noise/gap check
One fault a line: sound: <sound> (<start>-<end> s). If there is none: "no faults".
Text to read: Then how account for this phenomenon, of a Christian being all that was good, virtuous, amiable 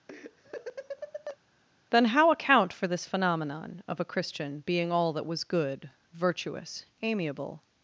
sound: laugh (0.1-1.4 s)